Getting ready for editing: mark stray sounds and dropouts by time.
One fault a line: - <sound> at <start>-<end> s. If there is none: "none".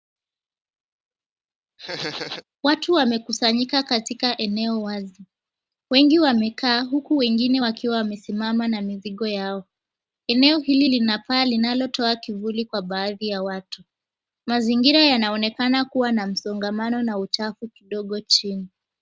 - laugh at 1.8-2.4 s